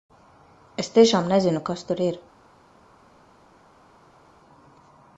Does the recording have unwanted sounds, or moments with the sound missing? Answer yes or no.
no